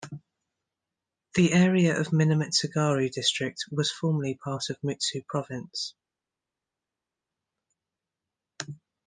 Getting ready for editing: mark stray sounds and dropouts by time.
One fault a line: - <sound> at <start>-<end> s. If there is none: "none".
none